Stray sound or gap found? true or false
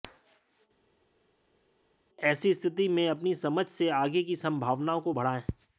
false